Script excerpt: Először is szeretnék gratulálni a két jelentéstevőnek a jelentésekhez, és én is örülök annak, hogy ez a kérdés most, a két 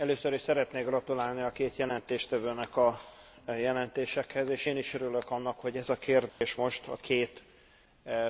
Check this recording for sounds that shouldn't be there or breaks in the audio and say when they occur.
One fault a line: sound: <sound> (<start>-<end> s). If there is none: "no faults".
sound: dropout (6.3-6.4 s)